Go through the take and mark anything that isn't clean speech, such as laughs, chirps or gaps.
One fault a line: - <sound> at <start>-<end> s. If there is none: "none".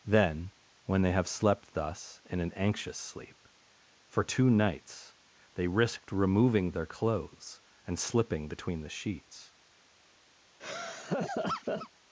- laugh at 10.6-11.9 s